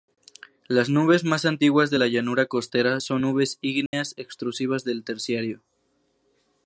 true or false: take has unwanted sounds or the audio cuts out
true